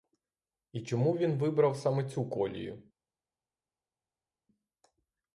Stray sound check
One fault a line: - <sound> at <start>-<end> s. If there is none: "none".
none